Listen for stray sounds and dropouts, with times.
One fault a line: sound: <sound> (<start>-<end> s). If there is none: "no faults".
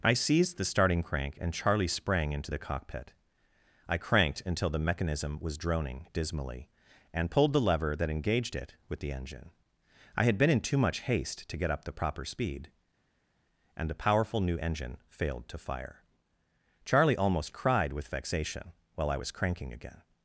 no faults